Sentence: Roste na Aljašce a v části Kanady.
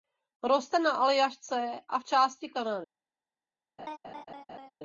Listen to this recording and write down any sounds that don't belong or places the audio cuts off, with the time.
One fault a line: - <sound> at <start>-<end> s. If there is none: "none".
- laugh at 3.8-4.7 s